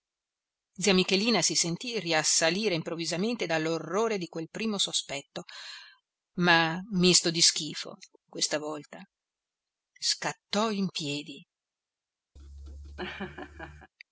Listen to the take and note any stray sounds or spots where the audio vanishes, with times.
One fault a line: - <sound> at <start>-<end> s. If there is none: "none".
- laugh at 12.4-13.9 s